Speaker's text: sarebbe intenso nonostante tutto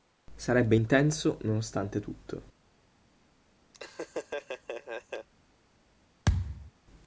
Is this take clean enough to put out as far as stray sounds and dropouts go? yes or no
no